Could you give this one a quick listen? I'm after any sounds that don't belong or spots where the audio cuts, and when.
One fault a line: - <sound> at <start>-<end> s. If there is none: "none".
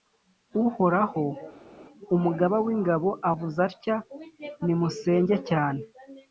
none